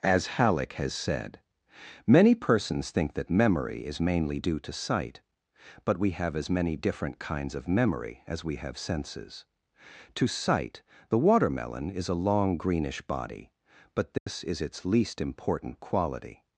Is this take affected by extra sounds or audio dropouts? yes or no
yes